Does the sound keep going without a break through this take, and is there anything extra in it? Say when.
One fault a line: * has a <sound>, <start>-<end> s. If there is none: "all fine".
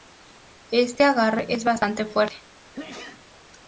* has a sneeze, 2.7-3.2 s